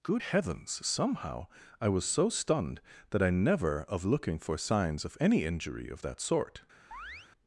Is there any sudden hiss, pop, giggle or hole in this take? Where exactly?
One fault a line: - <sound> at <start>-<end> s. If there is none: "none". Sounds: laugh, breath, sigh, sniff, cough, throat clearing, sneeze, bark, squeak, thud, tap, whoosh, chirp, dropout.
- chirp at 6.9-7.3 s